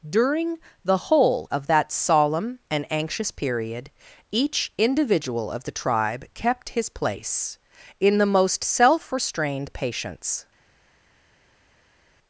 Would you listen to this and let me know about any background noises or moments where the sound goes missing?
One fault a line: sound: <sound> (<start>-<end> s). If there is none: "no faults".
no faults